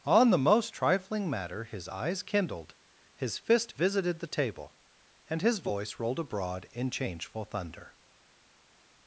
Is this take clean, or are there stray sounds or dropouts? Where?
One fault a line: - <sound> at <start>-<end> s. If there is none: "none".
none